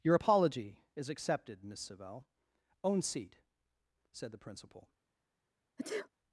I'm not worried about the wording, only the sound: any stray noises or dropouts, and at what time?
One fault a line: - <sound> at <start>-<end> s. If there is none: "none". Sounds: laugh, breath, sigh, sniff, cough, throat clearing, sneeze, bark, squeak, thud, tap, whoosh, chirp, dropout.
- sneeze at 5.8-6.1 s